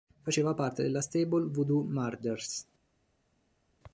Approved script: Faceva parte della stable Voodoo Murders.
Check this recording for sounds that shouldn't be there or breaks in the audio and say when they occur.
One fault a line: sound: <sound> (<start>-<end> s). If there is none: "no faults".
no faults